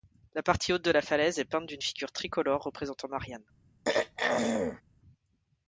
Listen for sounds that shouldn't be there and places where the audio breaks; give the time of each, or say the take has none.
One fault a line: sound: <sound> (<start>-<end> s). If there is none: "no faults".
sound: throat clearing (3.9-4.8 s)